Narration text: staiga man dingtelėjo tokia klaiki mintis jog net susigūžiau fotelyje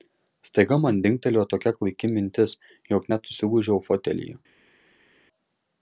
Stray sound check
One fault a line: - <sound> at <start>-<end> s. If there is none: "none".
none